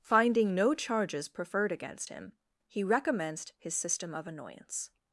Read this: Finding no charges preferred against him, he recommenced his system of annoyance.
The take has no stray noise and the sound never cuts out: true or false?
true